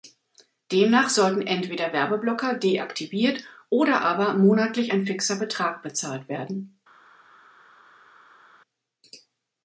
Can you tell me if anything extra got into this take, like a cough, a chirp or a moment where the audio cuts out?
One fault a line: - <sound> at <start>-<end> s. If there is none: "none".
none